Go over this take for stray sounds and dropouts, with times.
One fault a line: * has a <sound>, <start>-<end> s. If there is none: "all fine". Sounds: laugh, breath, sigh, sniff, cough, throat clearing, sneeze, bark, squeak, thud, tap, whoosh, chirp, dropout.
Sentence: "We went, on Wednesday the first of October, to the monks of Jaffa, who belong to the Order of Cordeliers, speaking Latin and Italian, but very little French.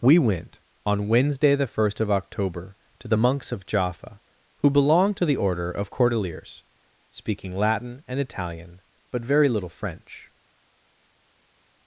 all fine